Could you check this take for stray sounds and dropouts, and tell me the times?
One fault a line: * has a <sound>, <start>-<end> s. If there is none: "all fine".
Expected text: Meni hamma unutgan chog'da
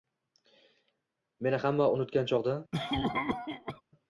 * has a cough, 2.7-3.8 s